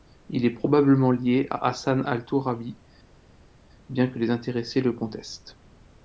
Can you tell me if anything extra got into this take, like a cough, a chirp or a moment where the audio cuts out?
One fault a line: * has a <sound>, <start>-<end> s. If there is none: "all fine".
all fine